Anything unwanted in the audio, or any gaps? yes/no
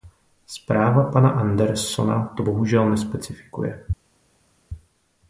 no